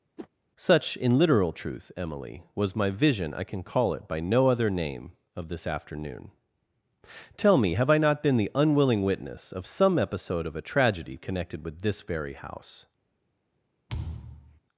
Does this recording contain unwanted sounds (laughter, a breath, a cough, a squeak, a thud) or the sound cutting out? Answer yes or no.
yes